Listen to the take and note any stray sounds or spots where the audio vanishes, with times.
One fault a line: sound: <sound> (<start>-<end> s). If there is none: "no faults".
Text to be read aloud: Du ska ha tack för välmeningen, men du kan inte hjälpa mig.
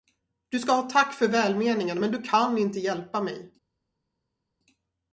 no faults